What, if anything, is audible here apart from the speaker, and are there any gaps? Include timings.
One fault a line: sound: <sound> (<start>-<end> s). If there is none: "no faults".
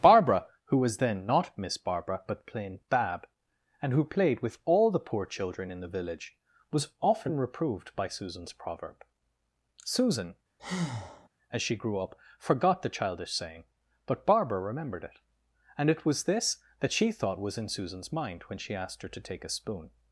sound: breath (10.6-11.3 s)